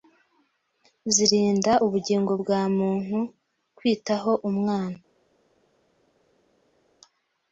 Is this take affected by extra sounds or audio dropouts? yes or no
no